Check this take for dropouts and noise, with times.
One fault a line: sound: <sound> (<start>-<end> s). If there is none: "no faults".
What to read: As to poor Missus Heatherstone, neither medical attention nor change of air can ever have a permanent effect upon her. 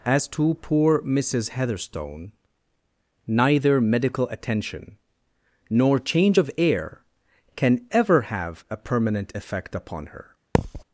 sound: thud (10.5-10.8 s)